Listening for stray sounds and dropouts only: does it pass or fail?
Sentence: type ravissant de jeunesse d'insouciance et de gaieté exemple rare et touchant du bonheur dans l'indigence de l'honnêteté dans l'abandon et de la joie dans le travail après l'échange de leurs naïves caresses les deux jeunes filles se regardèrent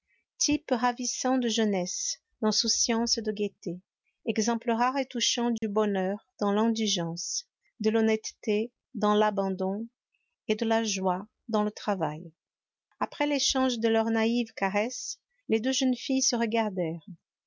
fail